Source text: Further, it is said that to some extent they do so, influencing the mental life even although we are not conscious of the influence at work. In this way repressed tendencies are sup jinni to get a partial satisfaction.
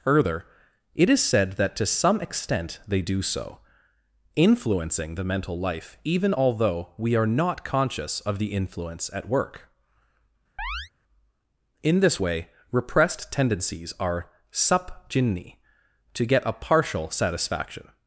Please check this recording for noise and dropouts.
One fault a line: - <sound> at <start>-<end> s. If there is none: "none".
- chirp at 10.6-10.9 s